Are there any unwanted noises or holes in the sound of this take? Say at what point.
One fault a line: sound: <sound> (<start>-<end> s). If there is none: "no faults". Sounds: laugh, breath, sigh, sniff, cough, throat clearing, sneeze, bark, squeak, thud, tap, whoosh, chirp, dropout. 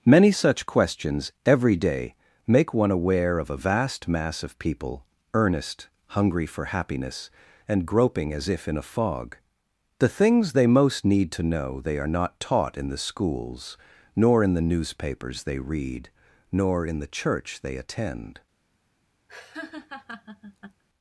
sound: laugh (19.3-20.8 s)